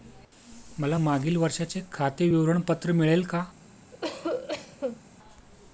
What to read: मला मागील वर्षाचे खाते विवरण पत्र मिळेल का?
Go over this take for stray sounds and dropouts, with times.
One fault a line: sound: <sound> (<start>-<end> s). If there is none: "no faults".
sound: cough (3.9-5.0 s)